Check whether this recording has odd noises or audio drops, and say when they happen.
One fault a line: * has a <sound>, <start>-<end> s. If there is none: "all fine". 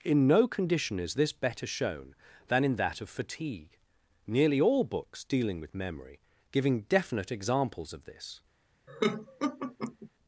* has a laugh, 8.9-10.1 s